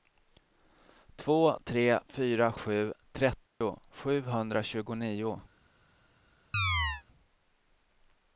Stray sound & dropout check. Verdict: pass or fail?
fail